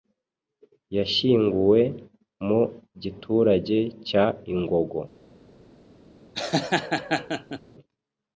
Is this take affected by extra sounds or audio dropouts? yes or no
yes